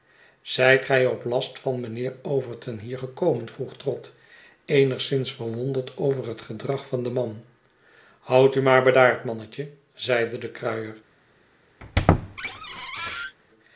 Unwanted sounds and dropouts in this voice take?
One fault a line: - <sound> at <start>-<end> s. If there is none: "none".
- squeak at 11.8-13.4 s